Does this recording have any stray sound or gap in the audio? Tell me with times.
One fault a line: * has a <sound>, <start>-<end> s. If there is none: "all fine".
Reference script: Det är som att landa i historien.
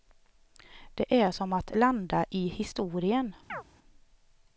* has a chirp, 3.5-3.6 s